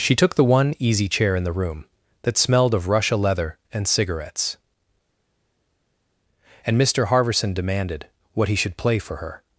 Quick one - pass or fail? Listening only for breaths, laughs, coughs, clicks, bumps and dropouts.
pass